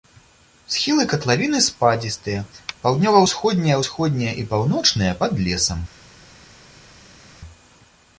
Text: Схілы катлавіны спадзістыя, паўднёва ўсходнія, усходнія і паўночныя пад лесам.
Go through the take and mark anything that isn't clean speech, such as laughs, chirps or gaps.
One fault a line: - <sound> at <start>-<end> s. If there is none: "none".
none